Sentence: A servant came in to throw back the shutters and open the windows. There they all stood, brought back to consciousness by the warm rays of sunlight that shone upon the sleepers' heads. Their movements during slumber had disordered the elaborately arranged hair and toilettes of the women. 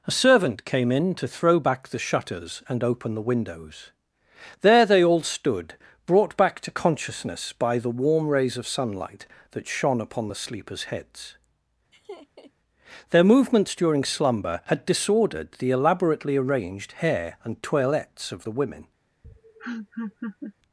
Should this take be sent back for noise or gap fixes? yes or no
yes